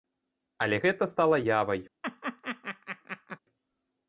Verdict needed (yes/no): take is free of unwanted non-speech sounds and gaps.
no